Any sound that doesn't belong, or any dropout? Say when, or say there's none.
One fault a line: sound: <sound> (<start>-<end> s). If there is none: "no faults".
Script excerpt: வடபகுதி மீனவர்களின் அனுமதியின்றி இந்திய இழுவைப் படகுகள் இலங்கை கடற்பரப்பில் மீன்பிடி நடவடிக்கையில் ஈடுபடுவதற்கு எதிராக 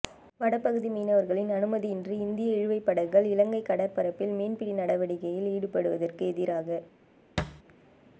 sound: thud (7.4-7.6 s)